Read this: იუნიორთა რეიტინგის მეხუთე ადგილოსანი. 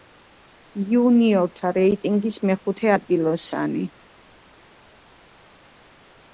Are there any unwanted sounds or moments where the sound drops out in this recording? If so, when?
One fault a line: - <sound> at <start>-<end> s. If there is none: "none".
none